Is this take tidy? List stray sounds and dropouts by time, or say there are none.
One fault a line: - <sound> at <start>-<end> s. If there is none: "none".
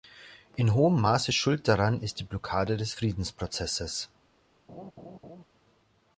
- laugh at 4.7-5.4 s